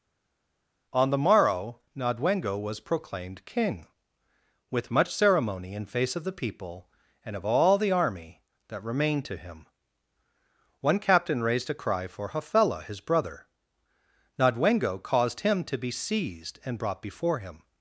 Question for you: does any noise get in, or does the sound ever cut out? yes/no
no